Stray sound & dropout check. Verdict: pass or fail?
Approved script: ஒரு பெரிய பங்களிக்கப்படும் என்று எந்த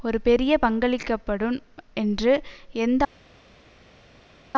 pass